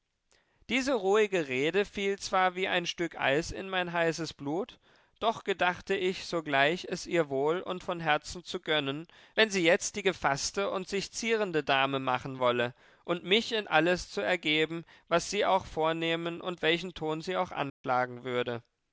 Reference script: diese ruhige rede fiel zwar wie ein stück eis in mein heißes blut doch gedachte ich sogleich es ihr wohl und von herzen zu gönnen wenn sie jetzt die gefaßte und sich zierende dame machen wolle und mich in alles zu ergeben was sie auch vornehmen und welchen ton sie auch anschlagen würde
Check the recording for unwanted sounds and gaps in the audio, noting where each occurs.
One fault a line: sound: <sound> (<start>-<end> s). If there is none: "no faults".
sound: dropout (17.7-17.8 s)